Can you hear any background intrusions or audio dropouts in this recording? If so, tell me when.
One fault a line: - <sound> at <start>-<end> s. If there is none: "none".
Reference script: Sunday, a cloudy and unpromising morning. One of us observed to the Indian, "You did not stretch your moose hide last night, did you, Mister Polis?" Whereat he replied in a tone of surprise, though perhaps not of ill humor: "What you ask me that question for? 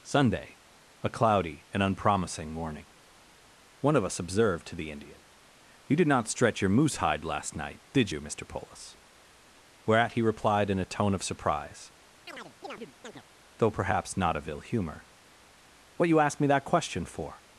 - chirp at 12.3-13.2 s